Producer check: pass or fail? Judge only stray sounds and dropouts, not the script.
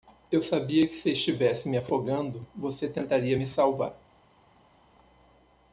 pass